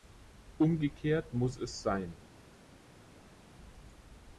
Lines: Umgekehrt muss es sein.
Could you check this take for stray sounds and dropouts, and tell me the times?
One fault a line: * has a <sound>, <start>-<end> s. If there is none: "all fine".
all fine